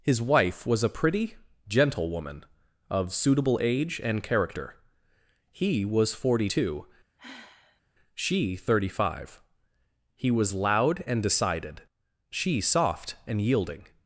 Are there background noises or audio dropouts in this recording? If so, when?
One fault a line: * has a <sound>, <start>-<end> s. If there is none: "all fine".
* has a sigh, 7.2-7.8 s